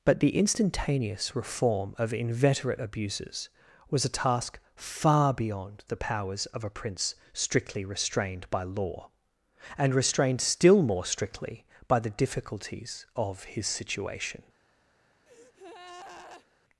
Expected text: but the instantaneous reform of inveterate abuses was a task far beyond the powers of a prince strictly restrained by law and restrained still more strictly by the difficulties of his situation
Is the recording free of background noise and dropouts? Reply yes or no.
no